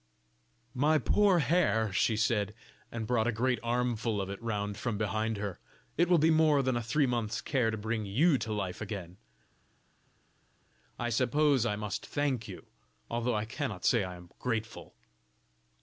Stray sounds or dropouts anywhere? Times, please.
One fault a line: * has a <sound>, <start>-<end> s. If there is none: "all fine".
all fine